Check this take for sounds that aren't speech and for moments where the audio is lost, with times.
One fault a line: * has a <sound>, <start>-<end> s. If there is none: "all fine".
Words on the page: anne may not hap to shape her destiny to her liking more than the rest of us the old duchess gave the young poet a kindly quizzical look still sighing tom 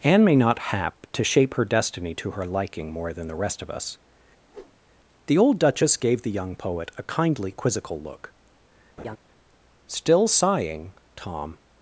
* has a whoosh, 4.5-4.8 s
* has a laugh, 9.0-9.2 s